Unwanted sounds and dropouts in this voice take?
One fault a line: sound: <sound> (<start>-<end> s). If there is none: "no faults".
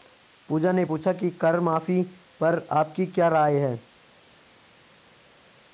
no faults